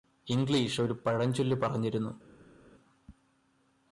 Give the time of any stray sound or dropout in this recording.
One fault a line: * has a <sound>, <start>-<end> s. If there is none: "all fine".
all fine